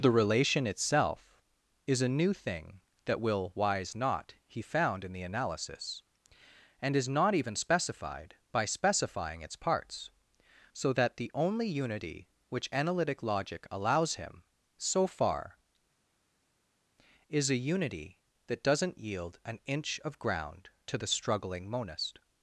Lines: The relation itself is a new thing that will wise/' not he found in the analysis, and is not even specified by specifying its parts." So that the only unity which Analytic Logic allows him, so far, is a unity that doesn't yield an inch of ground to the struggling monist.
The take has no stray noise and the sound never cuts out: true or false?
true